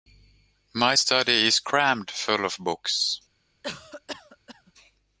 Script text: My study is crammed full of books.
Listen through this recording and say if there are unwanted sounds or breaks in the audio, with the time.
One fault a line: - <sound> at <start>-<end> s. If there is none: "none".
- cough at 3.6-4.7 s